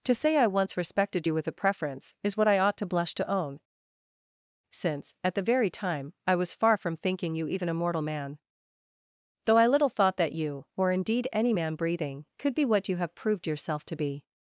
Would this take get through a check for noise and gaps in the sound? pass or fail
pass